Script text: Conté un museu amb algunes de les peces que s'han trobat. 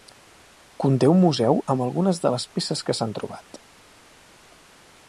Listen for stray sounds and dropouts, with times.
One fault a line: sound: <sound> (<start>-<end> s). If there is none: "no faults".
no faults